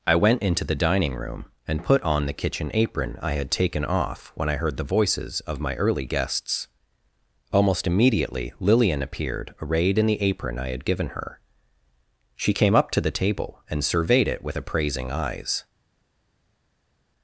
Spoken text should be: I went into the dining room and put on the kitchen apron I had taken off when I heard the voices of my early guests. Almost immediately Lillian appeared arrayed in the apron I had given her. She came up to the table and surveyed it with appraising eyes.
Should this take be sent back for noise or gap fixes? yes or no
no